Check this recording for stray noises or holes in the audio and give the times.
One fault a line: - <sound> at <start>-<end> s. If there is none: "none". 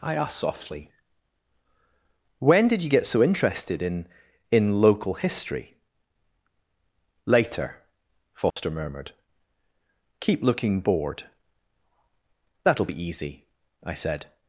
- dropout at 8.5-8.6 s